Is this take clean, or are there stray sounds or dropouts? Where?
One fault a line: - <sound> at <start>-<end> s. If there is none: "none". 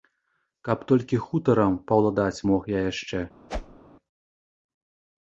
- whoosh at 3.5-3.8 s